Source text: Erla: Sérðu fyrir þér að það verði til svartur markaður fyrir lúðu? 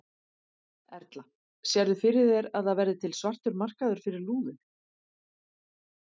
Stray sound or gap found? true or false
false